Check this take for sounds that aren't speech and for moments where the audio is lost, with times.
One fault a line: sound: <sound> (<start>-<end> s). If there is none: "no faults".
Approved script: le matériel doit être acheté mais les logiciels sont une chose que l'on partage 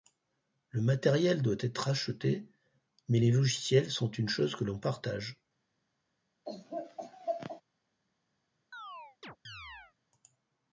sound: laugh (6.5-7.6 s)
sound: chirp (8.7-9.9 s)